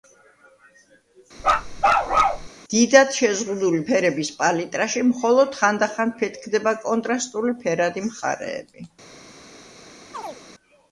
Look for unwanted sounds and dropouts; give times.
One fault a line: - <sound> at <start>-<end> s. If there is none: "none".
- bark at 1.4-2.5 s
- chirp at 10.1-10.4 s